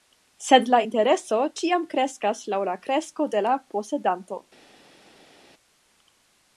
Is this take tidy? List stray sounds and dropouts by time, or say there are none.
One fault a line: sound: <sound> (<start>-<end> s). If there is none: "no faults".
no faults